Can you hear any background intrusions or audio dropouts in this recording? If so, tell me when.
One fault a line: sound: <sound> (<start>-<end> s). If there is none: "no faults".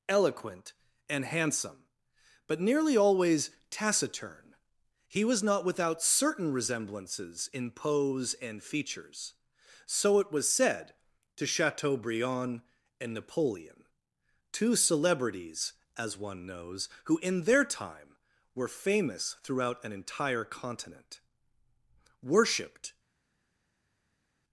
no faults